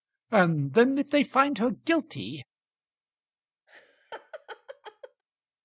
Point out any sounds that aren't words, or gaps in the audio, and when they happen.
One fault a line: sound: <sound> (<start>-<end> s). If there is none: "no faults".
sound: laugh (3.7-5.2 s)